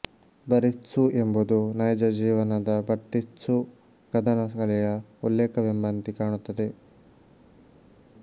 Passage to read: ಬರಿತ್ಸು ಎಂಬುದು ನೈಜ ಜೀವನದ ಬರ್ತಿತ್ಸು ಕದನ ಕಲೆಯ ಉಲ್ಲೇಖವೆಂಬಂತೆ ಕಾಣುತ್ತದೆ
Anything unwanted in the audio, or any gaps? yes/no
no